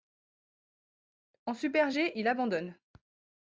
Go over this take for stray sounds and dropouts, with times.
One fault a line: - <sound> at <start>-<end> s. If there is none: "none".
none